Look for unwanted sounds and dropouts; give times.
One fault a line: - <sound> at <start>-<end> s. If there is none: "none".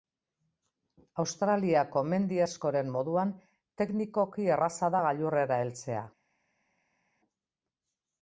none